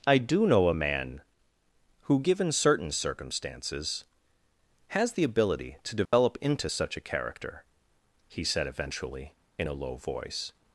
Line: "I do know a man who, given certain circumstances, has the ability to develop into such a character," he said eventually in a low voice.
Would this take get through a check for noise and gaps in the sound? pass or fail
fail